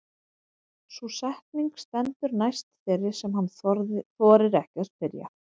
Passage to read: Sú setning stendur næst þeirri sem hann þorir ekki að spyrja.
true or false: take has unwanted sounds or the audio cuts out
false